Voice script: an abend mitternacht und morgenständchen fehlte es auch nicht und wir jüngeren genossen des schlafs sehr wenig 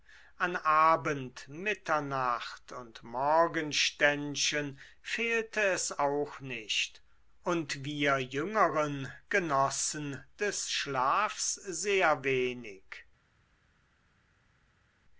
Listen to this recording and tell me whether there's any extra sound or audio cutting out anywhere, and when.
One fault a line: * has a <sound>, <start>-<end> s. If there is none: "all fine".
all fine